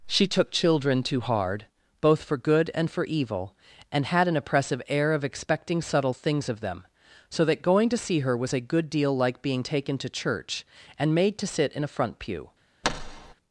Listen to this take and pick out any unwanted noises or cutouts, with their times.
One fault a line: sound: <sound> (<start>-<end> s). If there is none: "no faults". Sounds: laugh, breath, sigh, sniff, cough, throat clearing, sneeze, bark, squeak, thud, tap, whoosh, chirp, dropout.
sound: thud (12.8-13.3 s)